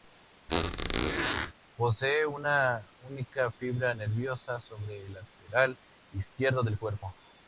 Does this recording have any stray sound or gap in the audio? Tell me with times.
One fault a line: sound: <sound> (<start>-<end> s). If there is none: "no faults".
sound: squeak (0.5-1.5 s)